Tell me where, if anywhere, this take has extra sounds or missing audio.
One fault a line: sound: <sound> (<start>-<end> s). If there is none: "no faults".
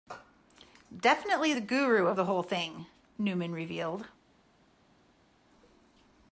no faults